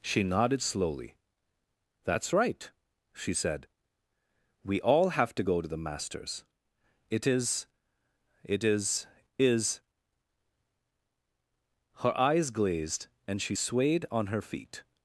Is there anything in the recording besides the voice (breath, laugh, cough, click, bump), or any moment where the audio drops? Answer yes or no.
no